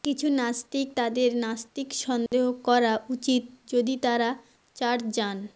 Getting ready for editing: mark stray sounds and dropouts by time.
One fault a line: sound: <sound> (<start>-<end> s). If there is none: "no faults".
sound: dropout (2.3-2.3 s)